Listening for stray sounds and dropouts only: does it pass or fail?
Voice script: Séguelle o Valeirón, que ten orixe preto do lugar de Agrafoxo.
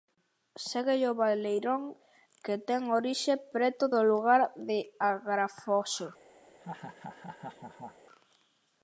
fail